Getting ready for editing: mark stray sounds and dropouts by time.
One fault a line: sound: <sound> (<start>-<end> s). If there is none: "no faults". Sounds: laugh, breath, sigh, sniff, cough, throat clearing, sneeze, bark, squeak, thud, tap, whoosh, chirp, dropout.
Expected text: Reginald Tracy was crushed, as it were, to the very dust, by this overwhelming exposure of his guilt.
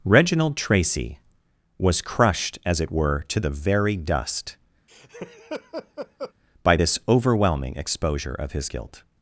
sound: laugh (4.9-6.3 s)